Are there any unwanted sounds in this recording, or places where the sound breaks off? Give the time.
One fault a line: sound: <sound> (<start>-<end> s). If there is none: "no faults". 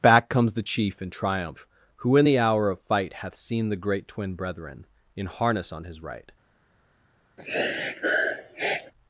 sound: sniff (7.4-8.9 s)